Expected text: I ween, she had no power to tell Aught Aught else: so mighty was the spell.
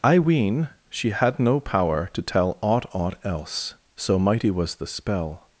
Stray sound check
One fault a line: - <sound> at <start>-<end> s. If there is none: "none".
none